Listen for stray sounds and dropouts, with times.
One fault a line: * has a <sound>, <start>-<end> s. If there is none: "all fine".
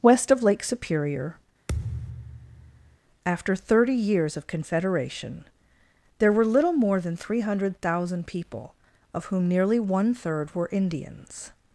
* has a thud, 1.7-3.0 s